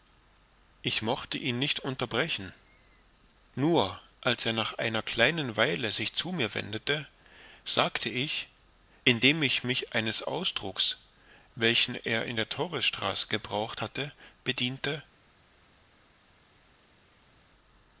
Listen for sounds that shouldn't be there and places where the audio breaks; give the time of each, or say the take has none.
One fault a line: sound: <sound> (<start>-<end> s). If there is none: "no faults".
no faults